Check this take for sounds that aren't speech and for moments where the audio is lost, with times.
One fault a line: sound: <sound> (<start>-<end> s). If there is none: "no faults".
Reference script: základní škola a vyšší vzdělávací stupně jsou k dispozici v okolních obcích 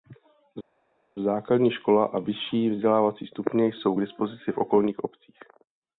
no faults